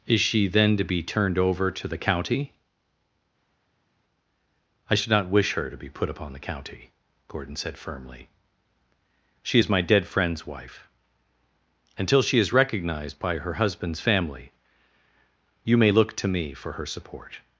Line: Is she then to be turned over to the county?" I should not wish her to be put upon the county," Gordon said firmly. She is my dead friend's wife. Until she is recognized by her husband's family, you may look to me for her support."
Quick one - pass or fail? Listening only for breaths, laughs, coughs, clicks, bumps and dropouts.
pass